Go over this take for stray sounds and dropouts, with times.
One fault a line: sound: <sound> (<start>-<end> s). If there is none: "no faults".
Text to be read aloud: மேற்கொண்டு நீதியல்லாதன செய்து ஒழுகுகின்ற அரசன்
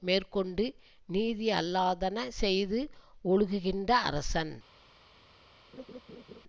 sound: laugh (5.7-6.4 s)